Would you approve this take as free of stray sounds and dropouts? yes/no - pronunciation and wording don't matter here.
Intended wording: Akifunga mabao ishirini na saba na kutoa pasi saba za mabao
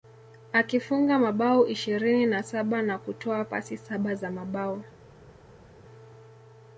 yes